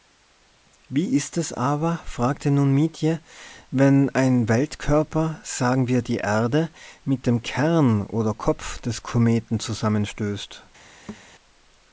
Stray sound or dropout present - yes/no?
yes